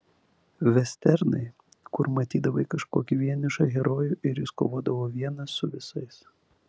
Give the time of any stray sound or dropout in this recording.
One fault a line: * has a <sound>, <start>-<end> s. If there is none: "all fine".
all fine